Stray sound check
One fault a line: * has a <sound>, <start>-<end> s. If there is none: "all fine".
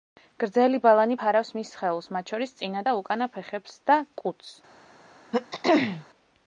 * has a throat clearing, 5.3-6.0 s